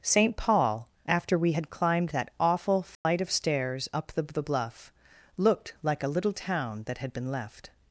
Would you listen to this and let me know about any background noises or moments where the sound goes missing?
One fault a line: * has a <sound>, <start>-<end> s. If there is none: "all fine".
* has a dropout, 2.9-3.1 s